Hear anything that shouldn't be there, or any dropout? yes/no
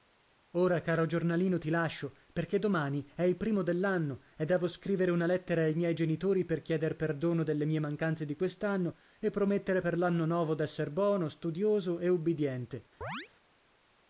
yes